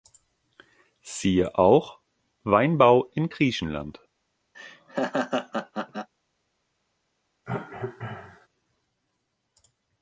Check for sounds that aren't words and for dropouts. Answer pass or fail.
fail